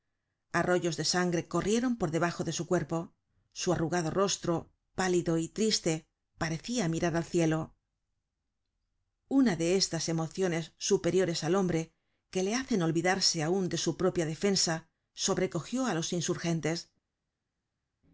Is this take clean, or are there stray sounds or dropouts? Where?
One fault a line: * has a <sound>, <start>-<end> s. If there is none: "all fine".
all fine